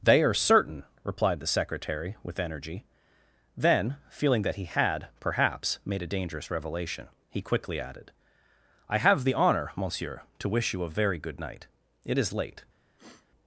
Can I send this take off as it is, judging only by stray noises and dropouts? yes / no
no